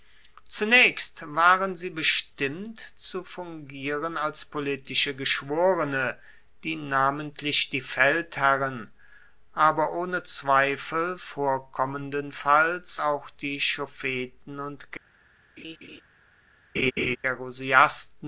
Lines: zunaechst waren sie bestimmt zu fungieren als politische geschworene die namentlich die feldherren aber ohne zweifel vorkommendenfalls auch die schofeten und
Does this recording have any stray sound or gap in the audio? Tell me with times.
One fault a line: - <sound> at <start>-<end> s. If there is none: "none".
- laugh at 15.6-16.0 s
- laugh at 16.7-17.2 s